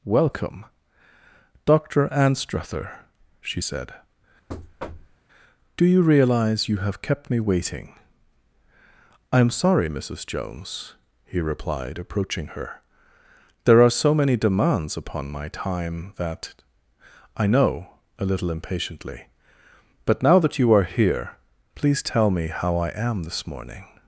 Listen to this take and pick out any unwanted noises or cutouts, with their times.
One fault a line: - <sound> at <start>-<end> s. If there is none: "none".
- thud at 4.5-5.2 s